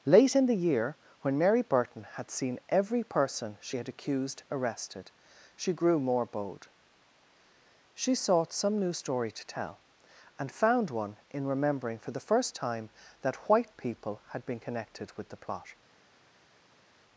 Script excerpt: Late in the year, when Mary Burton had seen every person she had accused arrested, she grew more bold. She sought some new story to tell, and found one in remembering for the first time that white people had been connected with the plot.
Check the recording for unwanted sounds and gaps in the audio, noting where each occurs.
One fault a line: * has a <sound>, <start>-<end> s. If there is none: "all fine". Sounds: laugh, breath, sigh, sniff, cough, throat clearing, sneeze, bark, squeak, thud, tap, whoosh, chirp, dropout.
all fine